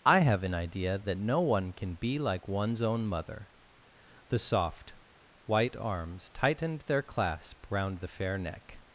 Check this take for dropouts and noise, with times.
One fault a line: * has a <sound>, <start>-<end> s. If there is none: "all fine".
all fine